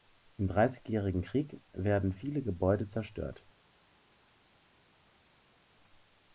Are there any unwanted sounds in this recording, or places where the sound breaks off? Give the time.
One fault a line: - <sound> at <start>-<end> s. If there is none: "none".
none